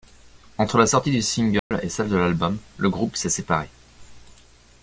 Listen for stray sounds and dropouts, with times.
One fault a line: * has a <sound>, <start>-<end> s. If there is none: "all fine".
* has a dropout, 1.6-1.7 s